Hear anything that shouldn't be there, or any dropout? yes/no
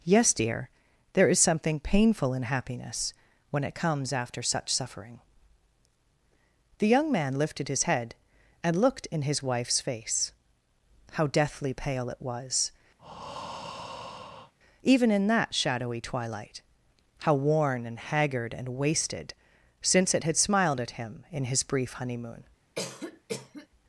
yes